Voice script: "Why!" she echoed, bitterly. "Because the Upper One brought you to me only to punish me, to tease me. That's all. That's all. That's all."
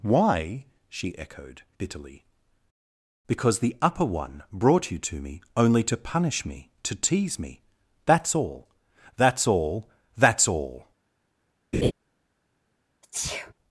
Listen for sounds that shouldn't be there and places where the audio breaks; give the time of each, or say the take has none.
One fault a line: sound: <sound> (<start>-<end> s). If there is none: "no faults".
sound: laugh (11.7-11.9 s)
sound: sneeze (13.0-13.5 s)